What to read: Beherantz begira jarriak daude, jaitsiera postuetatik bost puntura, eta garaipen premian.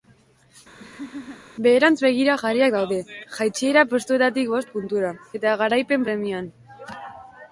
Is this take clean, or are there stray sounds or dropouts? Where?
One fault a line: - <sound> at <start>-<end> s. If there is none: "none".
- laugh at 0.8-1.5 s